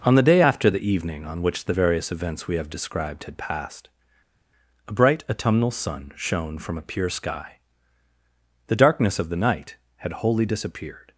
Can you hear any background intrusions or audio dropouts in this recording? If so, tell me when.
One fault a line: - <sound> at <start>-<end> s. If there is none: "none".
none